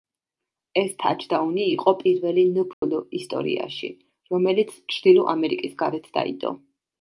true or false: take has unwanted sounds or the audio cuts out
true